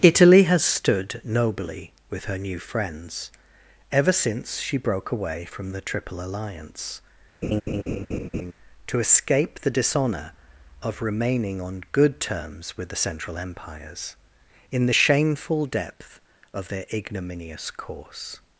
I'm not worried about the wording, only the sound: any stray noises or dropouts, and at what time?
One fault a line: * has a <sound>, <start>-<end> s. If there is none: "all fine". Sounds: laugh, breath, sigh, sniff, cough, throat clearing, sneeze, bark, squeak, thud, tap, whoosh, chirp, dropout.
* has a laugh, 7.4-8.5 s